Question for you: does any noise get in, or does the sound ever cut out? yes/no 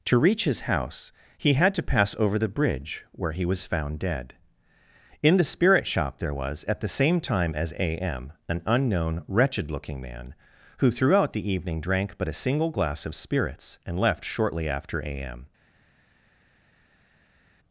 no